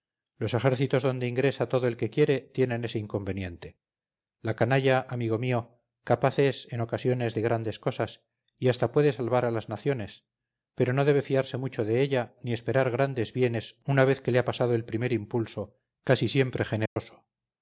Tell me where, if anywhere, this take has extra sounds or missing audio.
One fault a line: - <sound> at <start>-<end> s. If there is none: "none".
- dropout at 16.9-17.0 s